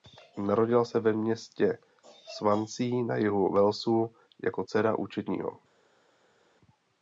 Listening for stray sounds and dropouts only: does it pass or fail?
pass